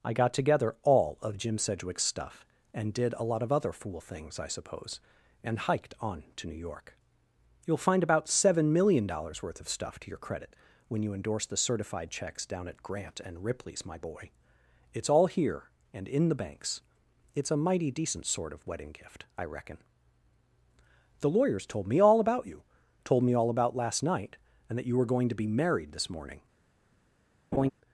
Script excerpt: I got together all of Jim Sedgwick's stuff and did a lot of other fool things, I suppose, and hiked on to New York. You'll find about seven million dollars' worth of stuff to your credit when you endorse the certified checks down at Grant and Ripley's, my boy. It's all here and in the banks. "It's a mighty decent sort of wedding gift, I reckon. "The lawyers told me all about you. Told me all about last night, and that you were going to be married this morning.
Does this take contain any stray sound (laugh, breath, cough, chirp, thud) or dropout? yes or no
yes